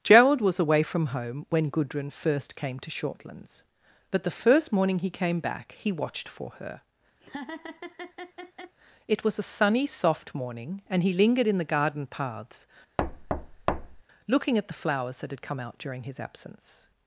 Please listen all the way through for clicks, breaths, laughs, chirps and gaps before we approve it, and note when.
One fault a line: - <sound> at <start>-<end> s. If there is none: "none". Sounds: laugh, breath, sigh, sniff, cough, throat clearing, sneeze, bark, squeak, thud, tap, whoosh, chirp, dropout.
- laugh at 7.2-8.8 s
- thud at 13.0-14.0 s